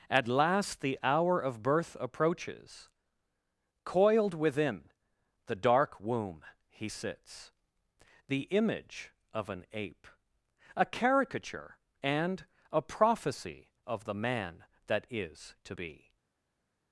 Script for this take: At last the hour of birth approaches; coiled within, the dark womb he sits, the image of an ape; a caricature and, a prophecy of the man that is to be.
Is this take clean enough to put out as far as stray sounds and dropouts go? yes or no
yes